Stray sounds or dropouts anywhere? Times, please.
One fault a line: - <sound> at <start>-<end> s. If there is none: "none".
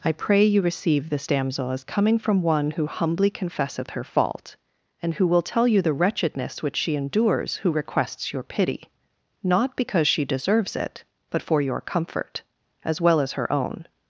none